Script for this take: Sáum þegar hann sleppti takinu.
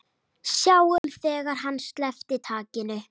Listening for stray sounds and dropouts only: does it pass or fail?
fail